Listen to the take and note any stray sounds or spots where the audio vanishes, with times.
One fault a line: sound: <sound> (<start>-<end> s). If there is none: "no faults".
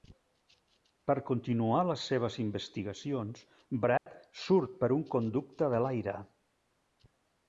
sound: dropout (4.0-4.1 s)